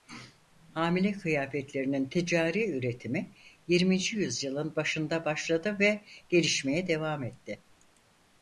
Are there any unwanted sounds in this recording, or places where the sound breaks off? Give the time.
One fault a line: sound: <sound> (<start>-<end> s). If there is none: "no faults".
no faults